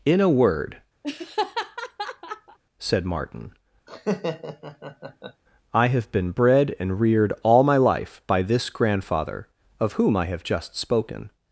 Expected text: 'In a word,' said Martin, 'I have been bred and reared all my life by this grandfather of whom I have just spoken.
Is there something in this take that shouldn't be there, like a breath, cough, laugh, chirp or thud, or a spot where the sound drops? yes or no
yes